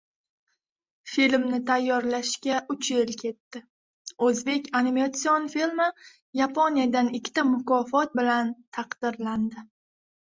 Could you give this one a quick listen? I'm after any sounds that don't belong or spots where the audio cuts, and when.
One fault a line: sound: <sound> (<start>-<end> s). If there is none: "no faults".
no faults